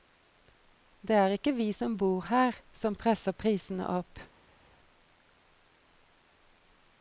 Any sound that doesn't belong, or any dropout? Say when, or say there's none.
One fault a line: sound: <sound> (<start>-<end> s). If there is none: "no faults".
no faults